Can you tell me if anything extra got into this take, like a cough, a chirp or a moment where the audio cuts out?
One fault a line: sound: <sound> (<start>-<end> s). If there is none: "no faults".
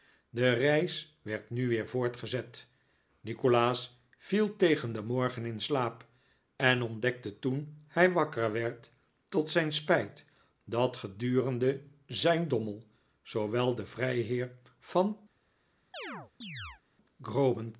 sound: chirp (15.9-16.8 s)